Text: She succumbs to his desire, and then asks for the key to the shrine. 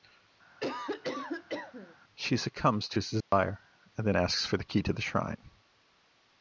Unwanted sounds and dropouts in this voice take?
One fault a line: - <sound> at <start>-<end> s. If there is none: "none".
- cough at 0.6-2.0 s
- dropout at 3.2-3.3 s